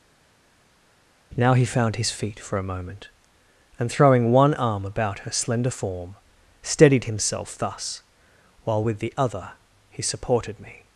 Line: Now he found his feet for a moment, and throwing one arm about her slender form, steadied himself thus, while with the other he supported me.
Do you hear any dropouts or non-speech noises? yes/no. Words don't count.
no